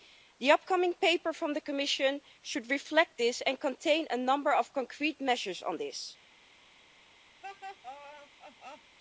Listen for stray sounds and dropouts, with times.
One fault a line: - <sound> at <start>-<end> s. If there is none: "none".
- laugh at 7.4-9.0 s